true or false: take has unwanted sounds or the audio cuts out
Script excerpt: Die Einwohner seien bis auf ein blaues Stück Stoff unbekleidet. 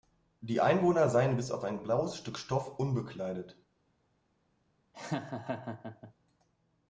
true